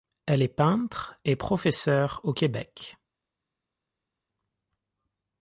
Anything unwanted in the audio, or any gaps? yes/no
no